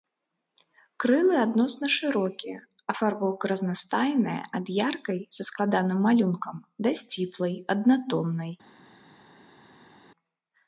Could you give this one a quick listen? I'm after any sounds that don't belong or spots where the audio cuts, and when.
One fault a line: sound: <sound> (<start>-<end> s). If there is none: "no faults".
no faults